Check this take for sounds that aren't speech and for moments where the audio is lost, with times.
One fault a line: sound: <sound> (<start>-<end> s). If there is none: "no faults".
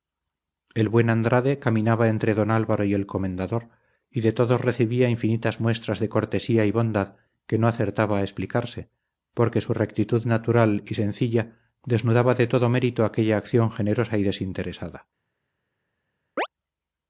sound: chirp (16.4-16.5 s)